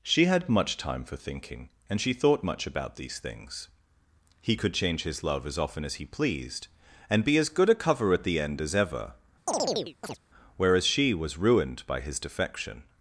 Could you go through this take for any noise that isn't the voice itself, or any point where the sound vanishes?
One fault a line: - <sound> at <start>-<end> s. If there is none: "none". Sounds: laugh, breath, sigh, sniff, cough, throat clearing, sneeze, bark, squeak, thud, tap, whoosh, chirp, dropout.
- chirp at 9.5-10.2 s